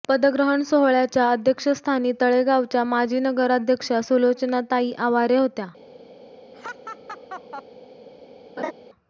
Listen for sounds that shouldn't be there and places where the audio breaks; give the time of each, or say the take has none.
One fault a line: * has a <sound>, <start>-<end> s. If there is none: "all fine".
* has a laugh, 6.5-7.6 s
* has a laugh, 8.6-8.7 s